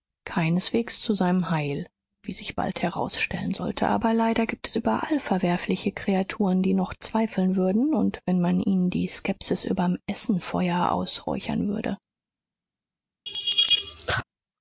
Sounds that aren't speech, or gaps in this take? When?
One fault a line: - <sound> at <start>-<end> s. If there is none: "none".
- laugh at 13.3-14.2 s